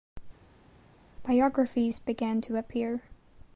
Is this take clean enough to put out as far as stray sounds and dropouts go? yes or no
yes